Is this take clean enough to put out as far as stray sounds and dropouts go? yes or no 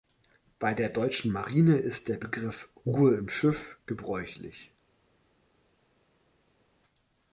yes